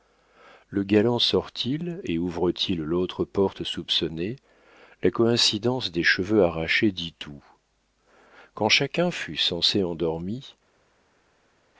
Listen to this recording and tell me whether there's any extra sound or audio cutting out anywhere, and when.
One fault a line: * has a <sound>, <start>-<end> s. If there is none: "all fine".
all fine